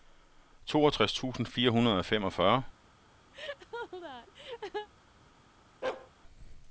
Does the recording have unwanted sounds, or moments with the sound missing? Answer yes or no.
yes